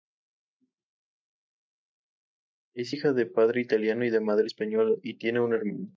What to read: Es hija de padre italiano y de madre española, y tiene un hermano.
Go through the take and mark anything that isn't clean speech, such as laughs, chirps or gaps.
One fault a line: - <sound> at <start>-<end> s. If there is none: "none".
none